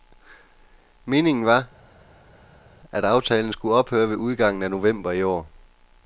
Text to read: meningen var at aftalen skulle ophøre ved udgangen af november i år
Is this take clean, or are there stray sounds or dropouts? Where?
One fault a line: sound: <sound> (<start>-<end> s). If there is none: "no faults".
no faults